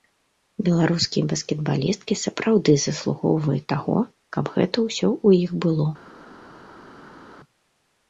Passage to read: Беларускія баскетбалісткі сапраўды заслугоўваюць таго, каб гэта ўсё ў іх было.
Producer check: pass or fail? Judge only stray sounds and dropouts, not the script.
pass